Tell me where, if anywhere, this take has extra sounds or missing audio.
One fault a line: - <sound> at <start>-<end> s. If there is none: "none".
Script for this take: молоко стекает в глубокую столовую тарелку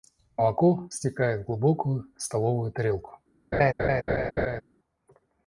- laugh at 3.5-4.6 s